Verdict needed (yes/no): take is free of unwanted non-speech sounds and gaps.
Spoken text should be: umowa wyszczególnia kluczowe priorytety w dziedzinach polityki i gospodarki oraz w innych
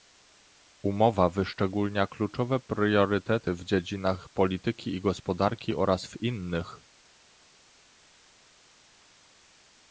yes